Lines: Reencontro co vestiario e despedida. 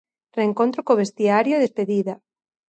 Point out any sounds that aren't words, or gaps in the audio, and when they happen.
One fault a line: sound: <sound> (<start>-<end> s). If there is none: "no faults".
no faults